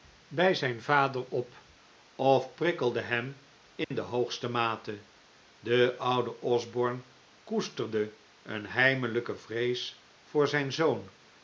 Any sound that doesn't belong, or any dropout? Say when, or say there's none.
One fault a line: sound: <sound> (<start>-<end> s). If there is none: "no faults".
sound: dropout (3.8-3.9 s)